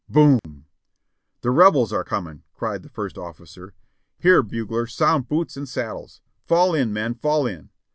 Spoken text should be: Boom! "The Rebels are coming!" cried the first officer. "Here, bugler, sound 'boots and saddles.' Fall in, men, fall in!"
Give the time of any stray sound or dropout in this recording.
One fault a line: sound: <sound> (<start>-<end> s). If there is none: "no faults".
sound: dropout (0.4-0.4 s)